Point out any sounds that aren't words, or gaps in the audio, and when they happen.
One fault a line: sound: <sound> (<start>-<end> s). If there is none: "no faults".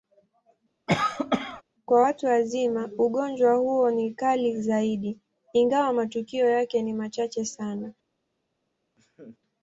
sound: cough (0.9-1.6 s)
sound: laugh (9.0-9.4 s)